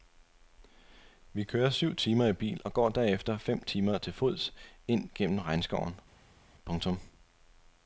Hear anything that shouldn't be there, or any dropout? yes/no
no